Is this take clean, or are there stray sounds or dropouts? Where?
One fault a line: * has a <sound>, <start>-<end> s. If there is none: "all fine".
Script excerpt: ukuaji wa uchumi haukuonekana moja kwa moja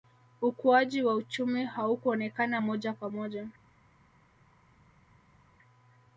all fine